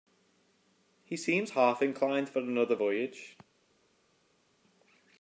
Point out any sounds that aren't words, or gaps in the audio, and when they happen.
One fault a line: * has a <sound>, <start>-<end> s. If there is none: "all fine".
all fine